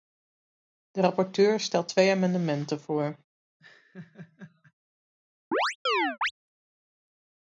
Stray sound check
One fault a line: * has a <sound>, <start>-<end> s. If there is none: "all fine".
* has a laugh, 3.6-4.7 s
* has a chirp, 5.5-6.3 s